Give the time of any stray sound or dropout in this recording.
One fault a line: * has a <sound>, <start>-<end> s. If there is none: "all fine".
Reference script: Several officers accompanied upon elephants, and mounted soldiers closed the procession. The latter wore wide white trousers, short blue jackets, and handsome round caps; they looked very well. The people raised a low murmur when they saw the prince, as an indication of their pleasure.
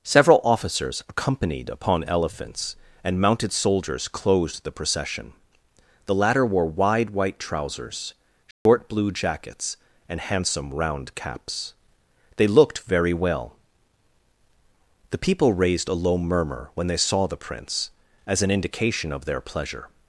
* has a dropout, 8.5-8.7 s